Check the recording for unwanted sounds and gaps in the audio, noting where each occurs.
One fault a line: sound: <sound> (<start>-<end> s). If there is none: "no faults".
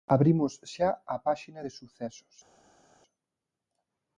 no faults